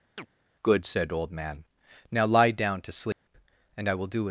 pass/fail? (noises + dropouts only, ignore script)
fail